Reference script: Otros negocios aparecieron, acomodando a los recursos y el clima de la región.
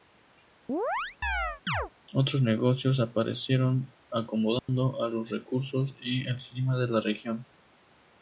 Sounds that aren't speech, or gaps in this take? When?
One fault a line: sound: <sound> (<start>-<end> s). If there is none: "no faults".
sound: chirp (0.7-1.9 s)
sound: dropout (4.6-4.7 s)